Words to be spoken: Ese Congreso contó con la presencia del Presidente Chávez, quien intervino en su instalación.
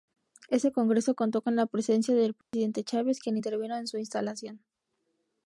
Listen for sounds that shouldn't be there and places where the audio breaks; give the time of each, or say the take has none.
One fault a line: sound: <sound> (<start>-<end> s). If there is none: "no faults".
sound: dropout (2.4-2.5 s)